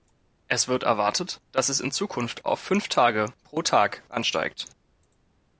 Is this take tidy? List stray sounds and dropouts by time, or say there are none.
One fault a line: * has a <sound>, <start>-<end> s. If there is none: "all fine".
all fine